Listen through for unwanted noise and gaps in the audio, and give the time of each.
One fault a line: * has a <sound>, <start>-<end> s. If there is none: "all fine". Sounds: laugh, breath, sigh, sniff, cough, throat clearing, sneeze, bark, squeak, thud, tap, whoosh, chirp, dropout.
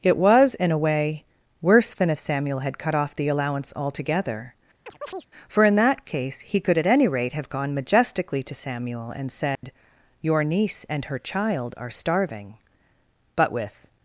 * has a chirp, 4.9-5.3 s
* has a dropout, 9.5-9.6 s